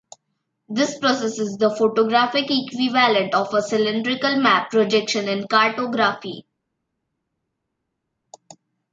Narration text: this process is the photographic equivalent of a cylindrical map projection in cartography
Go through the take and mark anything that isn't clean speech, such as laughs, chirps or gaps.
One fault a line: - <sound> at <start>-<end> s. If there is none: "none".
none